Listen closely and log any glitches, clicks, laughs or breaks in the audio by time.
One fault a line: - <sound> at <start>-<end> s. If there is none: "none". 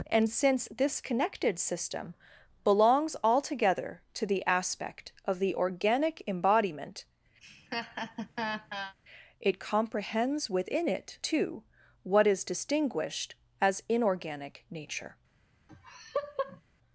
- laugh at 7.4-8.9 s
- laugh at 15.7-16.6 s